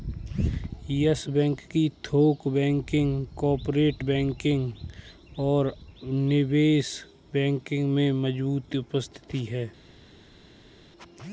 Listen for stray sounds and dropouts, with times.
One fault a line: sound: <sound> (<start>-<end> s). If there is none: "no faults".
no faults